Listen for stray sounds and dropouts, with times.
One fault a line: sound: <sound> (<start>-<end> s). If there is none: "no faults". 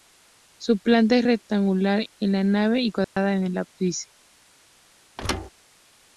sound: dropout (3.0-3.2 s)
sound: thud (5.2-5.5 s)